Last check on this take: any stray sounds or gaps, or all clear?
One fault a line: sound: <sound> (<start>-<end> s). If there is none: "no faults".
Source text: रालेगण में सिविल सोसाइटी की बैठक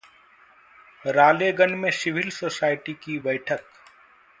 no faults